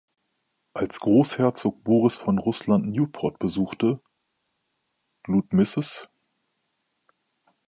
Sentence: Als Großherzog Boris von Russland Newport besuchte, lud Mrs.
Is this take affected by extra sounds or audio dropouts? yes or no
no